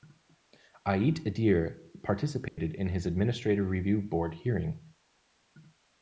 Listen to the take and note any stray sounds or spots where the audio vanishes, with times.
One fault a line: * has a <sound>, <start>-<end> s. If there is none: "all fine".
* has a dropout, 2.5-2.6 s